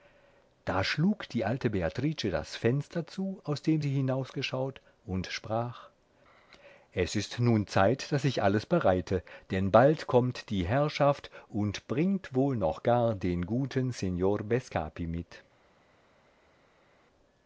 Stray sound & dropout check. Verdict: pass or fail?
pass